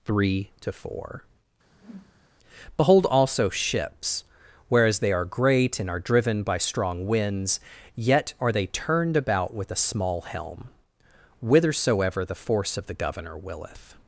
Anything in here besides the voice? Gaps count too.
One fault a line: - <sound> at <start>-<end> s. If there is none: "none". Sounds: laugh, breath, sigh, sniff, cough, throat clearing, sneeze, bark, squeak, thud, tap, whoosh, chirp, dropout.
- whoosh at 1.7-2.3 s